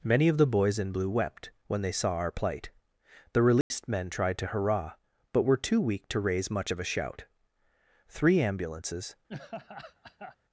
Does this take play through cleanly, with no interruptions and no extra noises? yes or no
no